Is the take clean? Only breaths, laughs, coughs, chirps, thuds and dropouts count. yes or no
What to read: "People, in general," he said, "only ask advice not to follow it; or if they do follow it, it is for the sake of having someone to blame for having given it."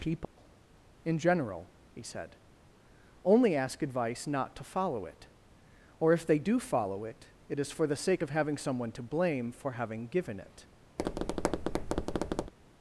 no